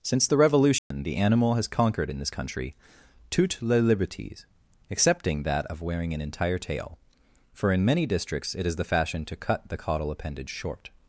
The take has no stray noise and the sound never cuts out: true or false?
false